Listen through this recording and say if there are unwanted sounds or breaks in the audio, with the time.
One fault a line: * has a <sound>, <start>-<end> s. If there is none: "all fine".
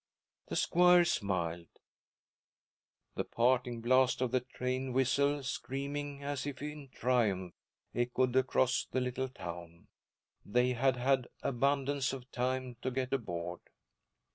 all fine